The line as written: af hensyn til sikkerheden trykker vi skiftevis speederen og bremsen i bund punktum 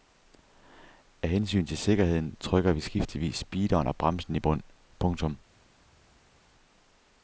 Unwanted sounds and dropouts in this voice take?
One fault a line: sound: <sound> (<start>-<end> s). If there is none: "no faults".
no faults